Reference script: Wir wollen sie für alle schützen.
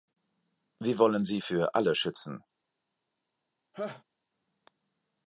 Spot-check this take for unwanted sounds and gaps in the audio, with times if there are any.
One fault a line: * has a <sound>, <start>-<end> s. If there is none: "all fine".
* has a laugh, 3.7-4.0 s